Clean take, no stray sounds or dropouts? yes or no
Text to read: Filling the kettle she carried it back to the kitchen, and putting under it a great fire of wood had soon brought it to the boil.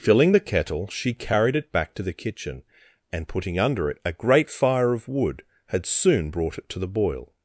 yes